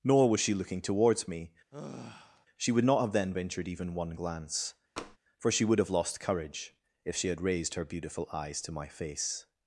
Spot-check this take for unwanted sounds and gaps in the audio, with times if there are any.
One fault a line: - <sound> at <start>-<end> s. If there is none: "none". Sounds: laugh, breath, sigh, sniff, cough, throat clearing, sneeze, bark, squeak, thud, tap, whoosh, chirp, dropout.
- sigh at 1.7-2.5 s
- tap at 5.0-5.2 s